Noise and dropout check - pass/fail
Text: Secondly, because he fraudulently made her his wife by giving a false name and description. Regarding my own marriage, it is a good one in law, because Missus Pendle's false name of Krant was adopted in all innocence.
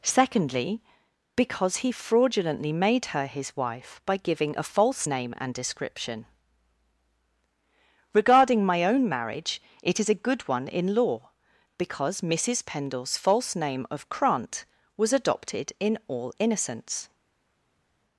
pass